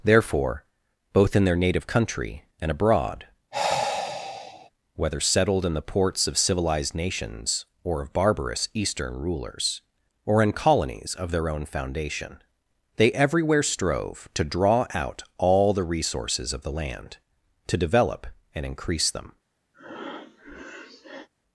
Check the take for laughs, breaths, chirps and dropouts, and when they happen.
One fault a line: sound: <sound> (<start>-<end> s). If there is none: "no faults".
sound: sigh (3.5-4.7 s)
sound: breath (19.7-21.3 s)